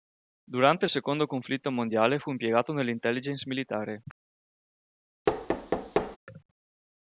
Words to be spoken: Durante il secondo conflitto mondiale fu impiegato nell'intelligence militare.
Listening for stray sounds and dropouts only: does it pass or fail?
fail